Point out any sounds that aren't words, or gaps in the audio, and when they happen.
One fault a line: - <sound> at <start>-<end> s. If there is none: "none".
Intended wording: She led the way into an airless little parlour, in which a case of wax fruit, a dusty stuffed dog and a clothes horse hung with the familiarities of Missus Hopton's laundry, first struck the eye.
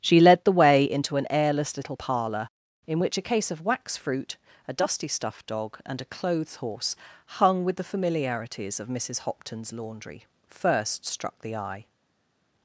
none